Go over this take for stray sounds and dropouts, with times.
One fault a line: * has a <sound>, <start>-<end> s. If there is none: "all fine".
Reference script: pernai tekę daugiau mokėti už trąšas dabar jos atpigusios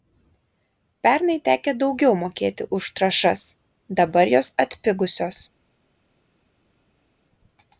all fine